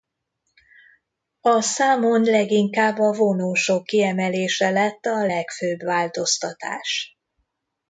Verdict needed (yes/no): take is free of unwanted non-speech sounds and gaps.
yes